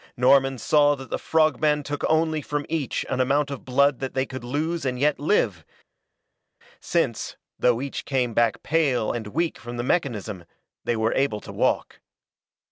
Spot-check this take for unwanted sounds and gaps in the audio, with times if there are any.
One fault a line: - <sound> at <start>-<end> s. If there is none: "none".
none